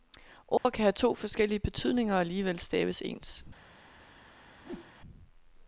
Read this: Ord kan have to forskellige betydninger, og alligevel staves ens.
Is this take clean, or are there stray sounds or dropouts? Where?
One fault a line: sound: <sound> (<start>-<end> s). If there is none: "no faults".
sound: dropout (0.6-0.7 s)
sound: whoosh (4.6-4.9 s)